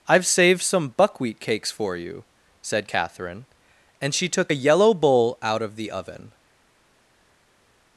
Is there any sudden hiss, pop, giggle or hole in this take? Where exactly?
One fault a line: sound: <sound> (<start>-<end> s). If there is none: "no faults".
no faults